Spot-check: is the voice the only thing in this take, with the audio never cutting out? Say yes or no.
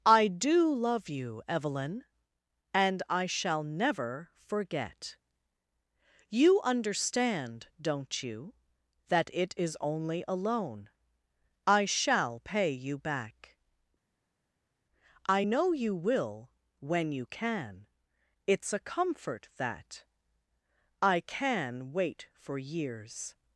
yes